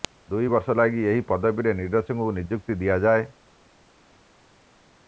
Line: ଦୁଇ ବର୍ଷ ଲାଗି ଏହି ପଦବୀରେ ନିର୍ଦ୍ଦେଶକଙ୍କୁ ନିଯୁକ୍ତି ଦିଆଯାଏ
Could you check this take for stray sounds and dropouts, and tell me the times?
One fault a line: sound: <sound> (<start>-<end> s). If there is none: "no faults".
no faults